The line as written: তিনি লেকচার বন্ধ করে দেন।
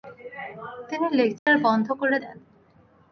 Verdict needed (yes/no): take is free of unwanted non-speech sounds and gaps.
no